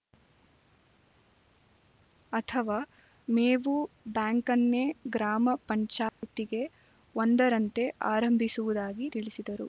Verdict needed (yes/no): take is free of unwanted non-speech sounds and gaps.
no